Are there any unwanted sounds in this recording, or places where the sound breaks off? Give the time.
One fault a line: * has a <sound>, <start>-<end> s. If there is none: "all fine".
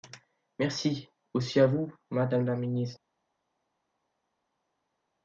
all fine